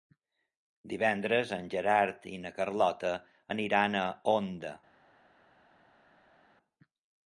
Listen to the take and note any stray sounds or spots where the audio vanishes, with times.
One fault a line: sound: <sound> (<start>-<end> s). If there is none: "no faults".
no faults